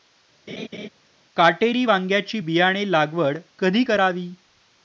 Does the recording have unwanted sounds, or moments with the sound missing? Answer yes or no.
yes